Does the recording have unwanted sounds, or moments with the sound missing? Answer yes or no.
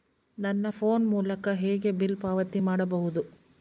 no